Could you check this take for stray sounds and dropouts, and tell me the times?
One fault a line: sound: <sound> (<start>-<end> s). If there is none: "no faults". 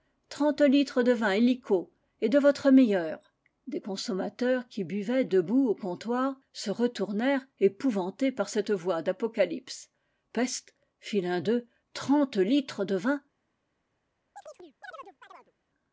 sound: chirp (14.4-15.5 s)